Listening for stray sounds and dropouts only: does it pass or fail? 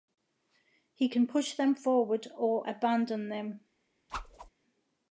fail